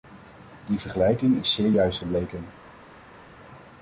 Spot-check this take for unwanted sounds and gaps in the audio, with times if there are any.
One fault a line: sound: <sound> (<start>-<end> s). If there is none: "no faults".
no faults